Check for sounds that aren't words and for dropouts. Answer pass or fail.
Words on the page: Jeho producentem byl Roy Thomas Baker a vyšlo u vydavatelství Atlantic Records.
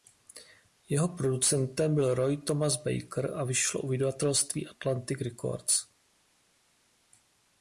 pass